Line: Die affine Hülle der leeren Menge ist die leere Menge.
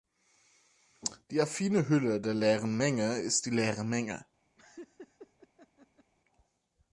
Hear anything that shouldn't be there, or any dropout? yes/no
yes